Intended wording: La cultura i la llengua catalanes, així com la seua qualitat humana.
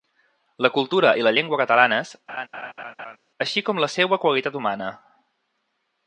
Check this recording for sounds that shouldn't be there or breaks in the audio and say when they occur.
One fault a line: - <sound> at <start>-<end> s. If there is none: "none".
- laugh at 2.3-3.2 s